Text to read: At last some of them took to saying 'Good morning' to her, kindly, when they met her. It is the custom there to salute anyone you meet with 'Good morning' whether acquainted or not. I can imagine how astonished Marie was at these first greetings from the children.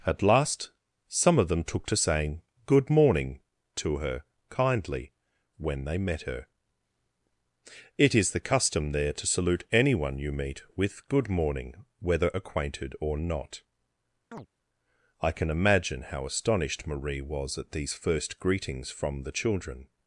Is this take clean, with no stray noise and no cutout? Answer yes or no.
no